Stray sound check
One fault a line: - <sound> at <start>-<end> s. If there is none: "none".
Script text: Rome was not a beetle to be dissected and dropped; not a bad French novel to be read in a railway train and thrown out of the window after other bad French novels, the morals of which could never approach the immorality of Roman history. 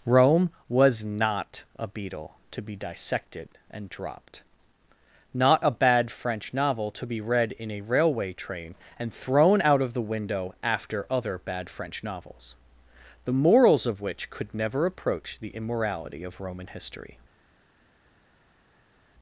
none